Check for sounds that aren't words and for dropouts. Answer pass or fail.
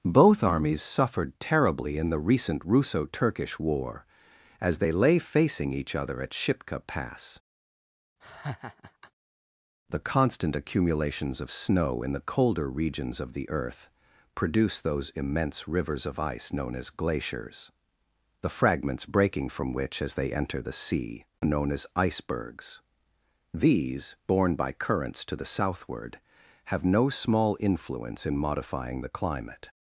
fail